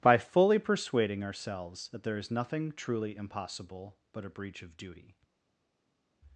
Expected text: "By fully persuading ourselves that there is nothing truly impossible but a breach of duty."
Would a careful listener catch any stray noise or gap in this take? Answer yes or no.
no